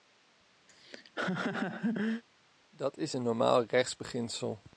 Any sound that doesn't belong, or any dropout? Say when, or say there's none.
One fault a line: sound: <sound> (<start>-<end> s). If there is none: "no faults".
sound: laugh (0.7-2.2 s)